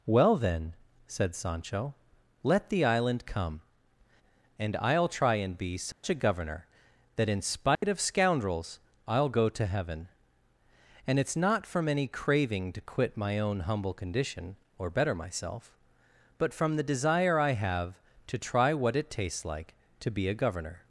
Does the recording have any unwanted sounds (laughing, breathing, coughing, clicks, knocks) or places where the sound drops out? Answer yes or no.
yes